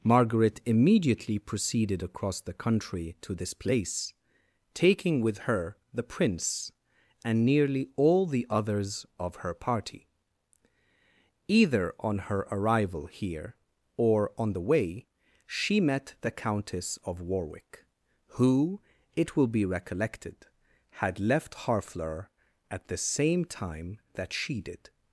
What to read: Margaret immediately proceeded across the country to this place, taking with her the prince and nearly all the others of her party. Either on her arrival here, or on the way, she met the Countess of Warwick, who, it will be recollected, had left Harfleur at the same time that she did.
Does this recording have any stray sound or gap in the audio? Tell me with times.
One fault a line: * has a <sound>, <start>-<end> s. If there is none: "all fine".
all fine